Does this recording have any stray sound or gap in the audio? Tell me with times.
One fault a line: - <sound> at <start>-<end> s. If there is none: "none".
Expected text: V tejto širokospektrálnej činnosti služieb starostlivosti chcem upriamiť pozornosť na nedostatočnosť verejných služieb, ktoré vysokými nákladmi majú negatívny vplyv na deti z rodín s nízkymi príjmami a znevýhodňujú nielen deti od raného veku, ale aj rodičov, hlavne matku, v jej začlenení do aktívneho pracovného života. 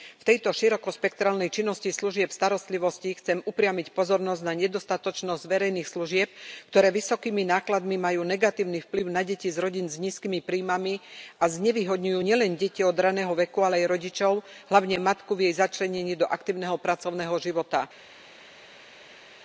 none